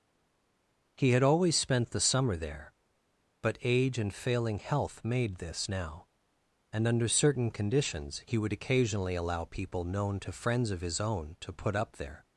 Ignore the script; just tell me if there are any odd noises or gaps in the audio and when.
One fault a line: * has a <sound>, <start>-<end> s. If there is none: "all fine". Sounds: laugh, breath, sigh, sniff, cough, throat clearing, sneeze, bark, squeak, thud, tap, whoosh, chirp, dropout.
all fine